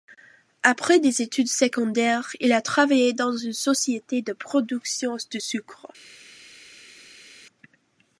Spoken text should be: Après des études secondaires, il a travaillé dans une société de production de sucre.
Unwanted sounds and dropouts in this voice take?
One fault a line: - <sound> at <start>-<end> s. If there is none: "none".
none